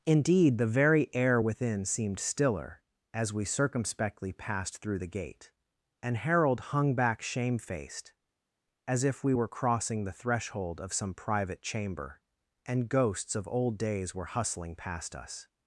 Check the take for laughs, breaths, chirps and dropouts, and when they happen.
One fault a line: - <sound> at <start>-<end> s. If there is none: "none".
none